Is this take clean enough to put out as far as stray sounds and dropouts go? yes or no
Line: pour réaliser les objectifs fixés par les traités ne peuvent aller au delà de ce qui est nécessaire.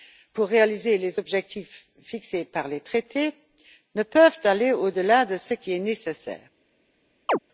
no